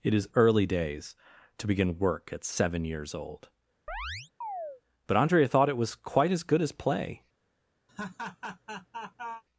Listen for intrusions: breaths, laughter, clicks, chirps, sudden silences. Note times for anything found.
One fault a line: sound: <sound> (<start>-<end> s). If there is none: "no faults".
sound: chirp (3.9-4.8 s)
sound: laugh (7.9-9.4 s)